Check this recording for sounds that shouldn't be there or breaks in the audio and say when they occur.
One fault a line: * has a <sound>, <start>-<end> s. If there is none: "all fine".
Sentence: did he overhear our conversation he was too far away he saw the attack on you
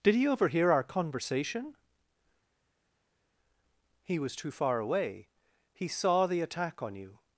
all fine